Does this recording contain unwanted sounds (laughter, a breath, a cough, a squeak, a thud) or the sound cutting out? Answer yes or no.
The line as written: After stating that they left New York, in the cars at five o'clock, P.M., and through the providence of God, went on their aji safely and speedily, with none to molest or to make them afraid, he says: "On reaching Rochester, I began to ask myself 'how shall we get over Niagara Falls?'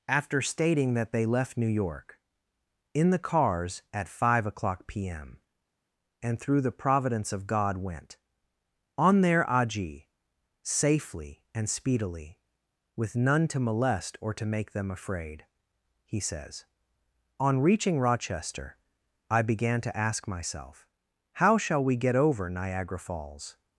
no